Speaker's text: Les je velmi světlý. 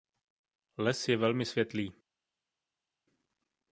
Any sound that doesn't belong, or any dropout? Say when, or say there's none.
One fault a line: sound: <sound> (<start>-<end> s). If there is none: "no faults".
no faults